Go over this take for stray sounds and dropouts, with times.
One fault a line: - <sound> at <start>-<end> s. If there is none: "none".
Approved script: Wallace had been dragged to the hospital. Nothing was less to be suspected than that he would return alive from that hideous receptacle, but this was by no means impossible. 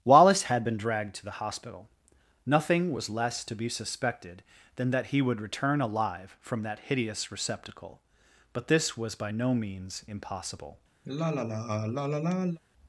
- sigh at 11.0-12.6 s